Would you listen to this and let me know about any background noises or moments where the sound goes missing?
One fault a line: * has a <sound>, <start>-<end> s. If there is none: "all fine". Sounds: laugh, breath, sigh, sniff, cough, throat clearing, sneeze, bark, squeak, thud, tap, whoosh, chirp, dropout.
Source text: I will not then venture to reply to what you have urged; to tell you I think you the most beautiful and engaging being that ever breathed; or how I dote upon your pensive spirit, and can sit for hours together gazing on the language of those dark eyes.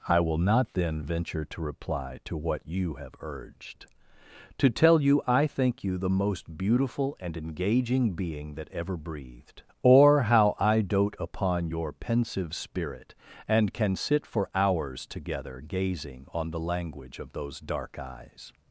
all fine